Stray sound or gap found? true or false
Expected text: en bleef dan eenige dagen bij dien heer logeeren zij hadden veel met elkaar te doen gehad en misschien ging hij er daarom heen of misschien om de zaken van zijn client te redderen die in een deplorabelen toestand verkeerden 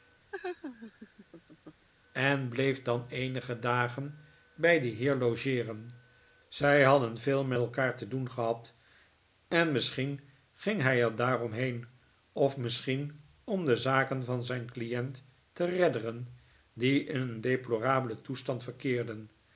true